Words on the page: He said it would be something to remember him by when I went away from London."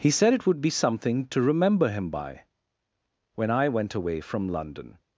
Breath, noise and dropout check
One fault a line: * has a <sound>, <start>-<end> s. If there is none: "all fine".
all fine